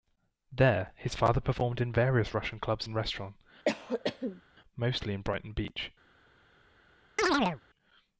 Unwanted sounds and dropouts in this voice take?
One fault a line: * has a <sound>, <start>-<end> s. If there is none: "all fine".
* has a cough, 3.7-4.4 s
* has a chirp, 7.2-7.6 s